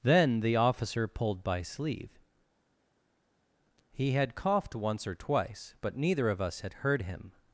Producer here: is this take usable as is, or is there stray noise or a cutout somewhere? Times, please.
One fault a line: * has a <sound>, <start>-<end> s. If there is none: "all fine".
all fine